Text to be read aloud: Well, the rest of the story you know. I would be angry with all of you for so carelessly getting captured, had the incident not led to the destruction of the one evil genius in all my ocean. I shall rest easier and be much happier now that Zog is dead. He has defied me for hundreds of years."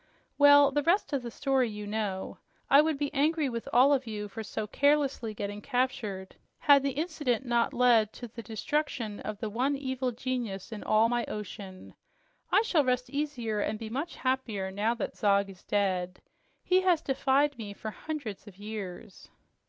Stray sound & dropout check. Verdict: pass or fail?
pass